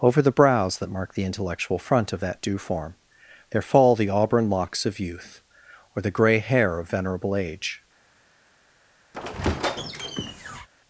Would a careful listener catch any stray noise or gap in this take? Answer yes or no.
yes